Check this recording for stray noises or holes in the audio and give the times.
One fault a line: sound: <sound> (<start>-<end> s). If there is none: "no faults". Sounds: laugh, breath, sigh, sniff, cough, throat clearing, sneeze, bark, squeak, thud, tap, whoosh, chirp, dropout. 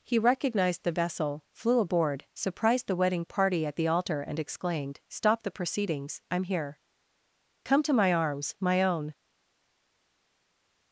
no faults